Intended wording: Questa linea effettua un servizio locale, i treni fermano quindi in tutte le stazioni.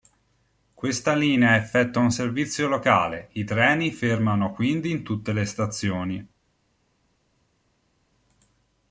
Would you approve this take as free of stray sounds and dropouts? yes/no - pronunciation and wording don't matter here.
yes